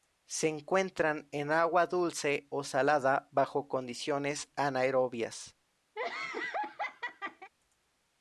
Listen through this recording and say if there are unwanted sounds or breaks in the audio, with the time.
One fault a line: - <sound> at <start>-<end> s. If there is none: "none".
- laugh at 6.0-7.5 s